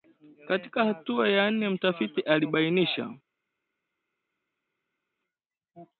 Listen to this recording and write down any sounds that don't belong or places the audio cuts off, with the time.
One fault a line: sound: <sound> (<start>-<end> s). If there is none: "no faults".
no faults